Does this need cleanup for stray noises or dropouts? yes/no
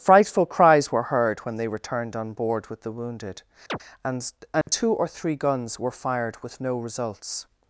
yes